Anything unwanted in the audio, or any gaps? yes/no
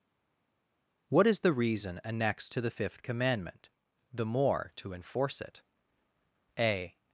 no